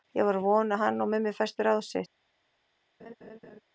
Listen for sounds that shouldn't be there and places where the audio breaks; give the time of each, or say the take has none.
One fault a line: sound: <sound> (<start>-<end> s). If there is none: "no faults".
sound: laugh (3.0-3.6 s)